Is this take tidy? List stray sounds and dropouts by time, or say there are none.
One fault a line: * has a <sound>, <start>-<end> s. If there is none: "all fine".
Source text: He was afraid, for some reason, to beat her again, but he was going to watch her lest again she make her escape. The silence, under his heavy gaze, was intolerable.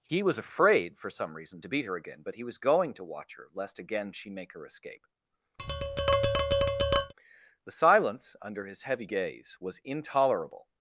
* has a tap, 5.6-7.1 s